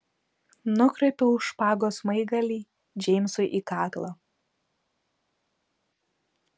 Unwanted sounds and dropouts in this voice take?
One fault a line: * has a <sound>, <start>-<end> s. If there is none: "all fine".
all fine